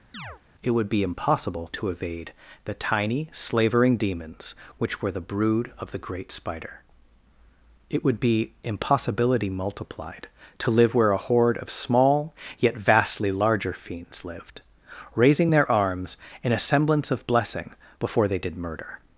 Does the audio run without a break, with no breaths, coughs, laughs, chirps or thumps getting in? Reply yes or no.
no